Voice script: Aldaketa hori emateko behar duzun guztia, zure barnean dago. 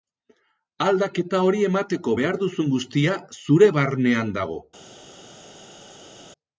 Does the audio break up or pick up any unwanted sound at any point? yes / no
no